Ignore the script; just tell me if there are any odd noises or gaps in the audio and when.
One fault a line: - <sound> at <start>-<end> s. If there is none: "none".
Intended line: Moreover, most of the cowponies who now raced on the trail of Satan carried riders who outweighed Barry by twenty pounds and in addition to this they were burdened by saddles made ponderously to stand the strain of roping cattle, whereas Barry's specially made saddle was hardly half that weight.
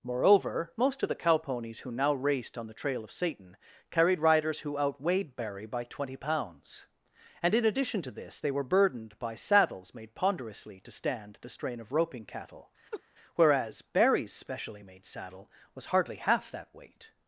- laugh at 12.9-13.0 s